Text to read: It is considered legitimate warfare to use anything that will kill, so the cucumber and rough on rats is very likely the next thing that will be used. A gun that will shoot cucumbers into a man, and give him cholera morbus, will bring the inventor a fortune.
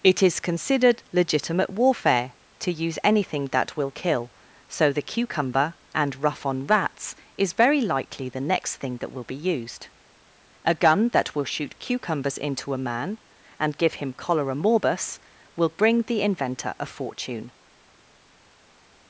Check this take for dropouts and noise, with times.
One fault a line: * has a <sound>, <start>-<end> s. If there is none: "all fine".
all fine